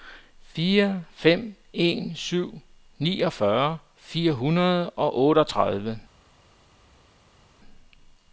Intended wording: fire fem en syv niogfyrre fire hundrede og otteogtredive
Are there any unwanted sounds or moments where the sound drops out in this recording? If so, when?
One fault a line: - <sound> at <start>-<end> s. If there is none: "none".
none